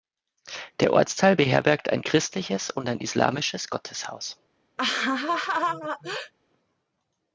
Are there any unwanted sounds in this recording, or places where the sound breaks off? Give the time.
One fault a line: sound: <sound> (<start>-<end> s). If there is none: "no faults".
sound: laugh (4.8-6.3 s)